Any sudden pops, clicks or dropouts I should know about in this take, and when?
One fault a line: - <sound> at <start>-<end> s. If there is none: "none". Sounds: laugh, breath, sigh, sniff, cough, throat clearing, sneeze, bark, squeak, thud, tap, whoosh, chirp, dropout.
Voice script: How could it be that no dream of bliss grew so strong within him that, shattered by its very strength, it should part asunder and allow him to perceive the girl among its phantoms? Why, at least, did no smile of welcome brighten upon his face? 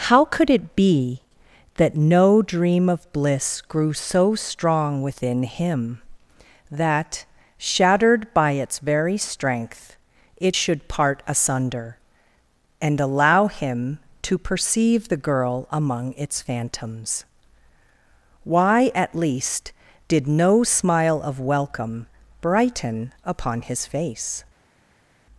none